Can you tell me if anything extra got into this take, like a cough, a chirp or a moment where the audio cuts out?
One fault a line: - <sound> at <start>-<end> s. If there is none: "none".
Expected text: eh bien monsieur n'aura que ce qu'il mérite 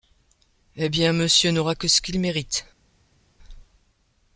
none